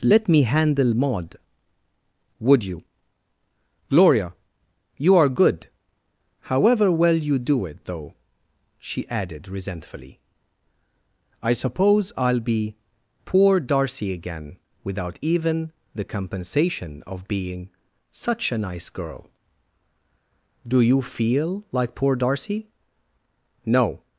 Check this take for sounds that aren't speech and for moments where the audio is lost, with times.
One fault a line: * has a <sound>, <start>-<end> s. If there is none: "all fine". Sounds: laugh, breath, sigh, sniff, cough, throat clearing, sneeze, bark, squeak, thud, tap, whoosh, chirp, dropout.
all fine